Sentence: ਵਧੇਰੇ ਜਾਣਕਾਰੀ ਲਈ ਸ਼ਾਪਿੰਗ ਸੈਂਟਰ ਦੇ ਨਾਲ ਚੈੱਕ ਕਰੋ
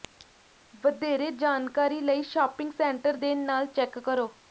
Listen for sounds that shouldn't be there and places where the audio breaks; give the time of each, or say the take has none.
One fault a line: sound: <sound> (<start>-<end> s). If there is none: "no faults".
no faults